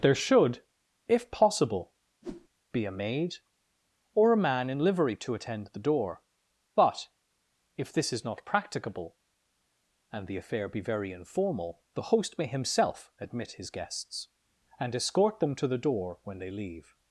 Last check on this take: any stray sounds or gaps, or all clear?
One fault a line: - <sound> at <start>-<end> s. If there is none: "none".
- whoosh at 2.2-2.5 s